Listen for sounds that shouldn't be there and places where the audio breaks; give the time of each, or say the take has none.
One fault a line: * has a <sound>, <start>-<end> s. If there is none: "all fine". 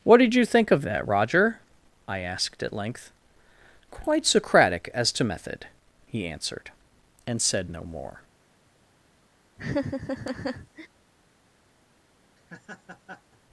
* has a laugh, 9.6-10.9 s
* has a laugh, 12.4-13.4 s